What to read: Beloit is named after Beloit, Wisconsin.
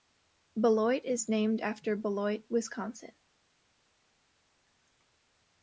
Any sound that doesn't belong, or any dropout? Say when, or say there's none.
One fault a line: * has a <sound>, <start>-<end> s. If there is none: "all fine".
all fine